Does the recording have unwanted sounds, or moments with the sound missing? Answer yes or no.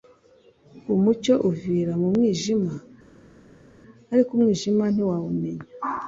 no